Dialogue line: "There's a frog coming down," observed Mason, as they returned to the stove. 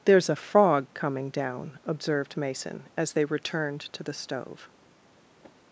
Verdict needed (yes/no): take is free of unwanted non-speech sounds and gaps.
yes